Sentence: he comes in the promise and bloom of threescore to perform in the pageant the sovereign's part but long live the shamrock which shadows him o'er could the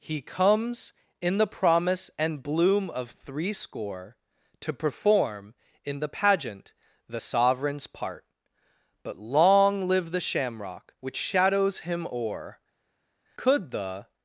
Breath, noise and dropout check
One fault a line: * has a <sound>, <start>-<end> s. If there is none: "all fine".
all fine